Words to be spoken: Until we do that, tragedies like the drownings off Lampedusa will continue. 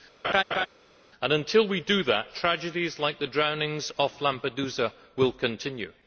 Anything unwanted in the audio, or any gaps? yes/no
yes